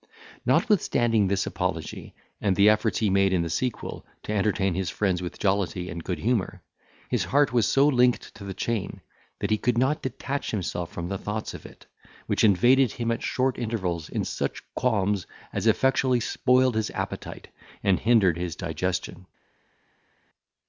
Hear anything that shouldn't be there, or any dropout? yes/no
no